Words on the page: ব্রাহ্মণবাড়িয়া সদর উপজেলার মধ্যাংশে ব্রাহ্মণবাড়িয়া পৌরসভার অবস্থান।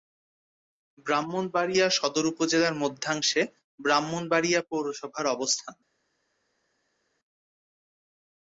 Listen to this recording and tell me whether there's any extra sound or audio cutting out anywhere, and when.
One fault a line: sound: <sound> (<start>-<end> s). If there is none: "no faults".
no faults